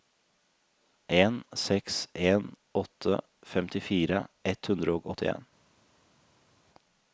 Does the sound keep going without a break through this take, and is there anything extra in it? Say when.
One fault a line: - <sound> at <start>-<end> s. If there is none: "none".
none